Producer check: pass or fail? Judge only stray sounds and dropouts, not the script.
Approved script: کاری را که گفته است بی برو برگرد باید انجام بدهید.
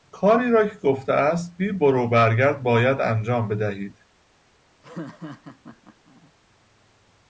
fail